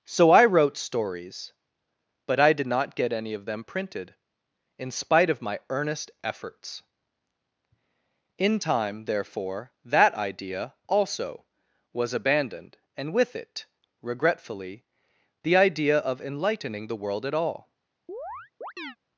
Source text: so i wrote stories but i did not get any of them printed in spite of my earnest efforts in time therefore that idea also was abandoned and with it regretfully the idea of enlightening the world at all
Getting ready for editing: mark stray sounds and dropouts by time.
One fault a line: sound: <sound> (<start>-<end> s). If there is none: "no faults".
sound: chirp (18.1-19.0 s)